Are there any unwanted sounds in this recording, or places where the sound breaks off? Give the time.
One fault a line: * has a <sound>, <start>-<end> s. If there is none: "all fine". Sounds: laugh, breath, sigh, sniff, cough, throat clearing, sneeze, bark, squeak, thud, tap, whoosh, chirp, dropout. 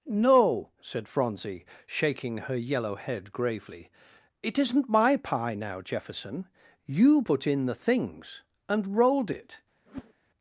* has a whoosh, 9.9-10.1 s